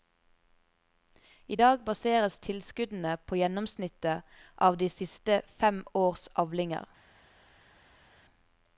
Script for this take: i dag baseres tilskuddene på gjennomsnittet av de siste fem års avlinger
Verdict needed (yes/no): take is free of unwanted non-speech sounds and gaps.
yes